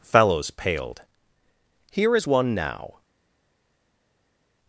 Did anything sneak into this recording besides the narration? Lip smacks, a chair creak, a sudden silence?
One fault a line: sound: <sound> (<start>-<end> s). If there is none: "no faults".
no faults